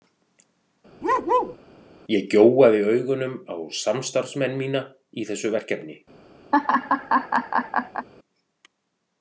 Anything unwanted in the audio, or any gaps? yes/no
yes